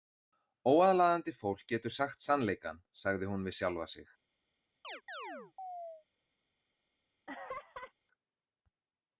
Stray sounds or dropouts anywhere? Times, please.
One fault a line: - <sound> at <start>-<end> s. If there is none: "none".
- chirp at 4.8-6.1 s
- laugh at 7.3-7.9 s